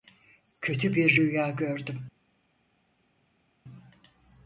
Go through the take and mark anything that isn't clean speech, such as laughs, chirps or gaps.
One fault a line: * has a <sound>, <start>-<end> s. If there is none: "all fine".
all fine